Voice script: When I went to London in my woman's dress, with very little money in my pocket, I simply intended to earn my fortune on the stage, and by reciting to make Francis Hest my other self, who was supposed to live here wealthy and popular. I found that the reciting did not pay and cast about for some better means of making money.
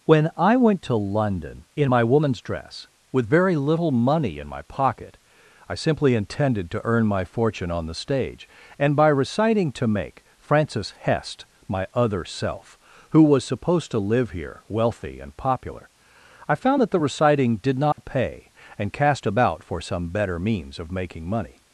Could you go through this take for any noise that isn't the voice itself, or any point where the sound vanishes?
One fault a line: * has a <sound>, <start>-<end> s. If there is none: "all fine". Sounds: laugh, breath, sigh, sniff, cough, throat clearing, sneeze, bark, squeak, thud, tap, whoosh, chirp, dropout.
* has a dropout, 17.9-18.0 s